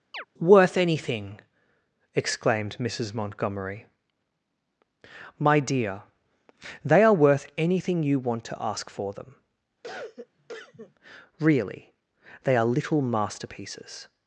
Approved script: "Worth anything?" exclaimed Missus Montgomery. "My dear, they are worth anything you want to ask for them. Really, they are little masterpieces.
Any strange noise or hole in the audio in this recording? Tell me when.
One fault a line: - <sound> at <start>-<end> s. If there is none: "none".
- chirp at 0.1-0.2 s
- cough at 9.8-10.9 s